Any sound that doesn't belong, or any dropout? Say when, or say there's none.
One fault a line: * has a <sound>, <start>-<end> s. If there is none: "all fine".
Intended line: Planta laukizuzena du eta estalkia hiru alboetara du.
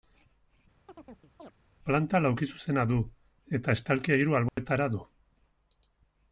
* has a chirp, 0.9-1.5 s
* has a dropout, 4.5-4.6 s